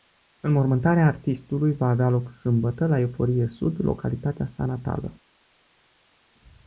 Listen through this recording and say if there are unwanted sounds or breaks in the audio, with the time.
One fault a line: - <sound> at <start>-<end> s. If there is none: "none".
none